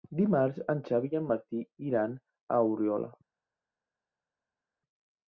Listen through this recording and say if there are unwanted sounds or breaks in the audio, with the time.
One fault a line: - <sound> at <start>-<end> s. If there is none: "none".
none